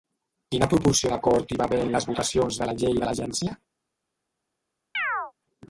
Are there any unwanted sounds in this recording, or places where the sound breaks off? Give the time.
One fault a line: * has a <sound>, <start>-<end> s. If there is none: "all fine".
* has a chirp, 4.9-5.3 s